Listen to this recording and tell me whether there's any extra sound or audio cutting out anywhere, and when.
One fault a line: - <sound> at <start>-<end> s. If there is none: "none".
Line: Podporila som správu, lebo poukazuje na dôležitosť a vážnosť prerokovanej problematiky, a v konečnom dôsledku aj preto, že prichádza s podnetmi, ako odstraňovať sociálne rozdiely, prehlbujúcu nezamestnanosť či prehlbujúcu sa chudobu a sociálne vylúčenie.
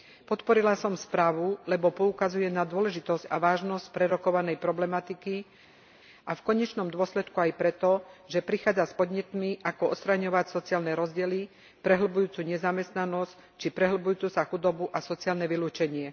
none